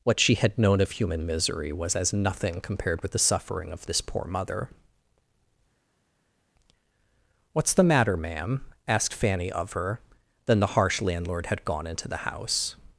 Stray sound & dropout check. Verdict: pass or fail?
pass